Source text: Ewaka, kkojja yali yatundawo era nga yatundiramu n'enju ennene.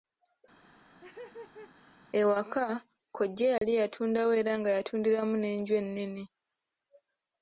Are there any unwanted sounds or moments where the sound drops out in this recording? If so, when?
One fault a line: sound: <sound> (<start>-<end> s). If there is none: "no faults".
sound: laugh (0.7-2.0 s)
sound: dropout (3.6-3.6 s)